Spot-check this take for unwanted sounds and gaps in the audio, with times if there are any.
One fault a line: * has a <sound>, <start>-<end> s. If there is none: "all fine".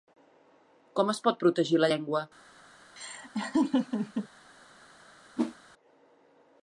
* has a laugh, 3.0-4.3 s
* has a whoosh, 5.4-5.6 s